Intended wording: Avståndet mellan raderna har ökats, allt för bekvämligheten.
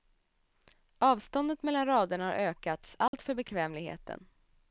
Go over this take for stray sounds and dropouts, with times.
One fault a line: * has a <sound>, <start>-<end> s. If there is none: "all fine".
* has a dropout, 3.1-3.1 s